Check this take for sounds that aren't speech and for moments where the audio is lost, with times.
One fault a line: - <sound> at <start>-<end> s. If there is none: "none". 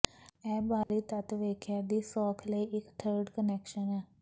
- dropout at 0.8-0.9 s